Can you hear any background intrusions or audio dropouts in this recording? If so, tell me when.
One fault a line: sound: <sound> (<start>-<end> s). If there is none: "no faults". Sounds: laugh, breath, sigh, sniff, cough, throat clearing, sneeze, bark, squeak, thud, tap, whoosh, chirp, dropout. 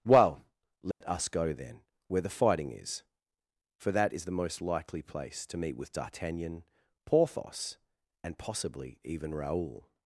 sound: dropout (0.9-1.0 s)